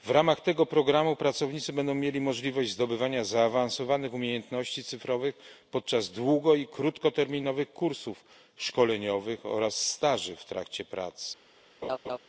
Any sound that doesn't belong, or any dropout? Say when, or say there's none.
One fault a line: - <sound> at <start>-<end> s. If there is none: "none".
- laugh at 11.8-12.2 s